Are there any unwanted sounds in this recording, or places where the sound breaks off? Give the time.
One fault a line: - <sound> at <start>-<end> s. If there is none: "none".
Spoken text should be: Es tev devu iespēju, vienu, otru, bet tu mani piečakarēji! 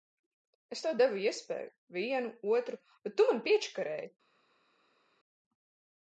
none